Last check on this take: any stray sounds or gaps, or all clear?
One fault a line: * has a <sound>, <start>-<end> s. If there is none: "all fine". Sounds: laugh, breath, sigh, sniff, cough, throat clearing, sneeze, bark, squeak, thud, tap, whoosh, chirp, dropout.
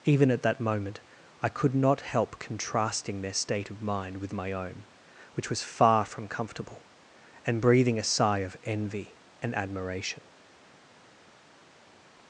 all fine